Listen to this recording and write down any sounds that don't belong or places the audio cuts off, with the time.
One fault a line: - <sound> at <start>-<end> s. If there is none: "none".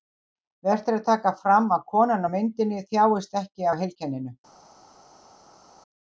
none